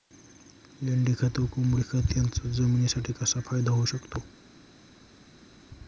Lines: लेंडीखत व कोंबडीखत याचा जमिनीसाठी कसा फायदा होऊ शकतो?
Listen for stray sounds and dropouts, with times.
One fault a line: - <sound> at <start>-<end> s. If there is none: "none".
none